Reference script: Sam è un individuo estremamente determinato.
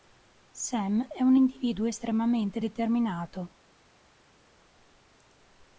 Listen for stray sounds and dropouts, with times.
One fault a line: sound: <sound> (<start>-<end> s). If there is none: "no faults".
no faults